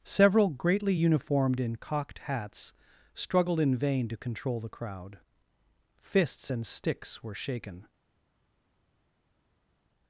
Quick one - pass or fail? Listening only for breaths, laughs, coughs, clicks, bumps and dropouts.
pass